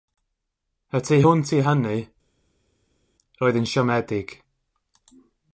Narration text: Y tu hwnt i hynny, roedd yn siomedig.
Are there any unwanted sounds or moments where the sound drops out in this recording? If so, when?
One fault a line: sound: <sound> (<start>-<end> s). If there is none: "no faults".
no faults